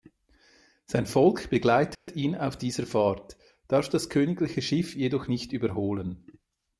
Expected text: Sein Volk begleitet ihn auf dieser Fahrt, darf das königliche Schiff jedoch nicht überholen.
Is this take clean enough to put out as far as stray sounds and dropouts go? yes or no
no